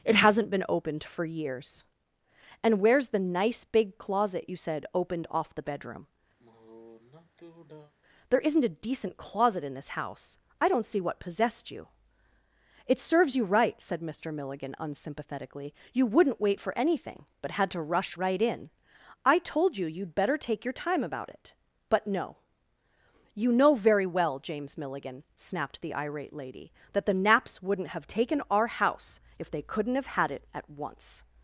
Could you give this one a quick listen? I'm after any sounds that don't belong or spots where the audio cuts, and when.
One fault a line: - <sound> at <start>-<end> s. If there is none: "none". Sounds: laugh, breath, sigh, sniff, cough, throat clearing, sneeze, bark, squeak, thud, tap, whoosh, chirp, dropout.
- sigh at 6.4-7.9 s